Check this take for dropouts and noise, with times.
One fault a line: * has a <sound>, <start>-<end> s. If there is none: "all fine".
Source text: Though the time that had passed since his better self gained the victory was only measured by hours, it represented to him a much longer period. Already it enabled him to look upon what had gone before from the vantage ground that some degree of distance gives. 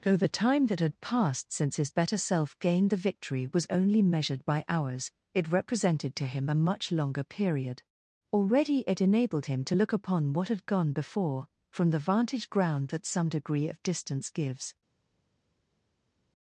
all fine